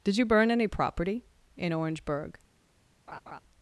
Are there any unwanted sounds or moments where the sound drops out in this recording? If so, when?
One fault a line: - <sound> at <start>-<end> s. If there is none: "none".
- laugh at 3.1-3.4 s